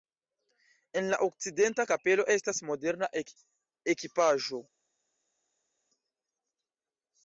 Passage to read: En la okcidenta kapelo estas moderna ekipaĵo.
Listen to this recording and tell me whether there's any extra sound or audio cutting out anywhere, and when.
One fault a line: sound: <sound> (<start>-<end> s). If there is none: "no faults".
no faults